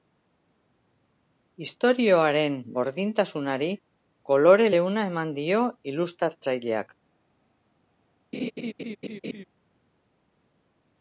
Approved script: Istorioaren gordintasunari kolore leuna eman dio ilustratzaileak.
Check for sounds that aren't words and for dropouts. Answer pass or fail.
fail